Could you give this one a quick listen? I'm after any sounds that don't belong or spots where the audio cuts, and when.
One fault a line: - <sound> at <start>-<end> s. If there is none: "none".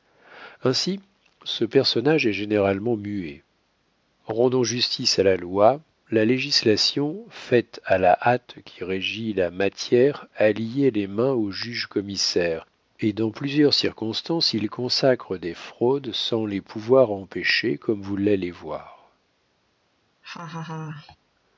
- laugh at 20.2-21.2 s